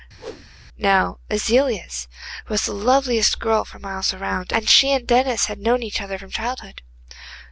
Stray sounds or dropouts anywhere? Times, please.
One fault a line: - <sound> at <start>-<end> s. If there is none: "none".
- whoosh at 0.2-0.5 s